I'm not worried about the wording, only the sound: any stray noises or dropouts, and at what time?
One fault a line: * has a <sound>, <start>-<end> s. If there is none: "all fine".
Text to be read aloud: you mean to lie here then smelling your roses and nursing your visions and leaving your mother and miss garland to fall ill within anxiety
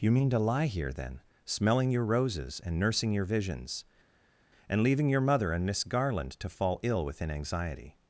all fine